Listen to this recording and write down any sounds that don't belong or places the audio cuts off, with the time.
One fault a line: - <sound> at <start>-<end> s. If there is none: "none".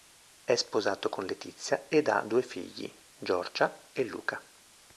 none